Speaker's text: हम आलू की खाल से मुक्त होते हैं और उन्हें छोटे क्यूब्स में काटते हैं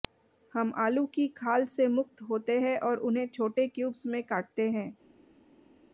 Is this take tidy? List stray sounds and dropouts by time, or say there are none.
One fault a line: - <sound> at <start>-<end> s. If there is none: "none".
none